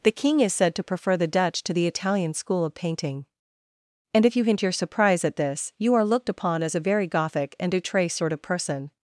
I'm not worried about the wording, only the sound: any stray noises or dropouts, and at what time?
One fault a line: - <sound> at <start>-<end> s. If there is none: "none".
none